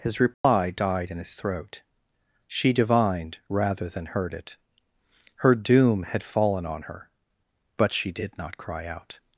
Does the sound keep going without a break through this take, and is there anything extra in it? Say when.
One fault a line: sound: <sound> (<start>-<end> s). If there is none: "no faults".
sound: dropout (0.3-0.4 s)